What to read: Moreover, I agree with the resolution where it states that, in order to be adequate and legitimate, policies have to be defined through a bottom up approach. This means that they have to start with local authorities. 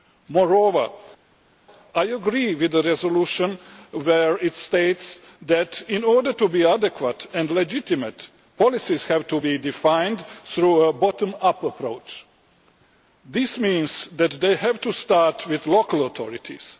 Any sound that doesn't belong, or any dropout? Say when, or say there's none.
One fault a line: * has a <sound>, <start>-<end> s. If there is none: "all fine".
all fine